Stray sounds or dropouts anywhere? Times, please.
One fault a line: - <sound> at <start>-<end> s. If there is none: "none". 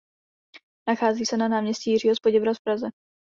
none